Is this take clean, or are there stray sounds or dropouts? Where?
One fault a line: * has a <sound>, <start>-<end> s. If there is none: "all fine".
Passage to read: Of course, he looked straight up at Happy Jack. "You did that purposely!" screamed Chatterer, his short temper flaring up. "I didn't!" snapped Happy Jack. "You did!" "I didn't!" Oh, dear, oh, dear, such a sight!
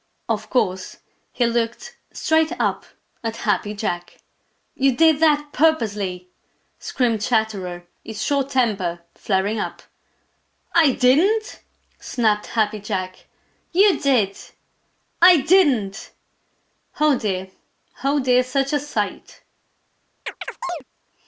* has a chirp, 20.3-20.8 s